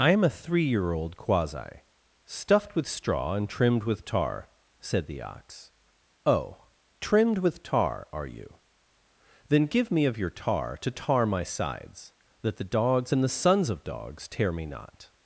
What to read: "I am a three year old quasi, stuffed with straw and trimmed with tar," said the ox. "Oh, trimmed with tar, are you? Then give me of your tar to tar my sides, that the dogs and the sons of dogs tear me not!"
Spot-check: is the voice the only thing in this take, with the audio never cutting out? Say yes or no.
yes